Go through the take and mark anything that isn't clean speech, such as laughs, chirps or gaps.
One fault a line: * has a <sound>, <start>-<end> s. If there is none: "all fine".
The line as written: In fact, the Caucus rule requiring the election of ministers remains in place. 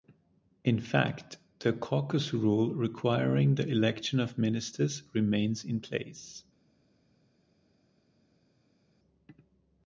all fine